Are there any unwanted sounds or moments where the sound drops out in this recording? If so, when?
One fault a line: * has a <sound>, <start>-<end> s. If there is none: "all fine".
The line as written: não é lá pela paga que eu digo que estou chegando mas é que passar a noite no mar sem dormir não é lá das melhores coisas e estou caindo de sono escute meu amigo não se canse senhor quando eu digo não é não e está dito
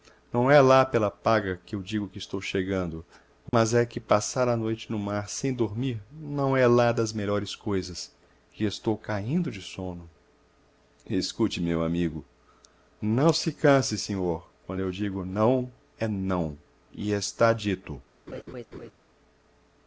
* has a dropout, 3.5-3.5 s
* has a laugh, 18.3-18.9 s